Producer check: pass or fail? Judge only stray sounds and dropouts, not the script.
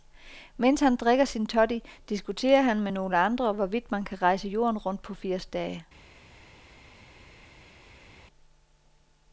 pass